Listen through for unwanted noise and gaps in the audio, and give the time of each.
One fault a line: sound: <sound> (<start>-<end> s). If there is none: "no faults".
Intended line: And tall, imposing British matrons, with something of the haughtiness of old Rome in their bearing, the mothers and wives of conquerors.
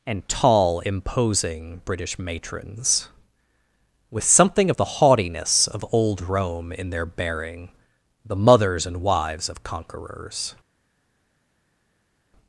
no faults